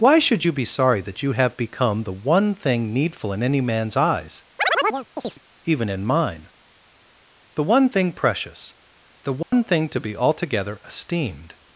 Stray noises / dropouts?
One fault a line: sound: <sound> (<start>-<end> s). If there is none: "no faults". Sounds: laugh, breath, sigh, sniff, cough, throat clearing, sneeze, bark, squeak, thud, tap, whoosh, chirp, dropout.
sound: chirp (4.6-5.4 s)
sound: dropout (9.4-9.5 s)